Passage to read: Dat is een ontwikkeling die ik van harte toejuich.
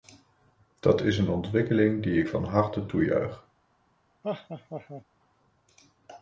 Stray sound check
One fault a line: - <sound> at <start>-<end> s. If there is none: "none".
- laugh at 4.2-5.0 s